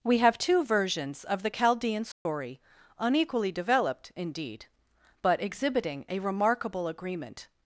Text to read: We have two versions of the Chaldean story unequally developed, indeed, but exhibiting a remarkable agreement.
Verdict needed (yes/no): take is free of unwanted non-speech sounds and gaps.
no